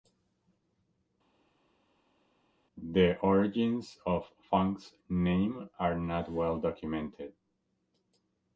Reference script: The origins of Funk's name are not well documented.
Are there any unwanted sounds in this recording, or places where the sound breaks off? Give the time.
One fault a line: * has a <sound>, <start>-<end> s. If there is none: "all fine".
all fine